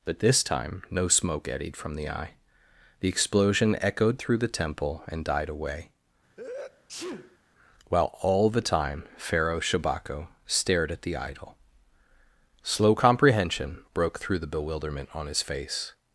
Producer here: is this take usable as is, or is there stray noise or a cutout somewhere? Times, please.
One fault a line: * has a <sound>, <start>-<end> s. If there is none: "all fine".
* has a sneeze, 6.4-7.4 s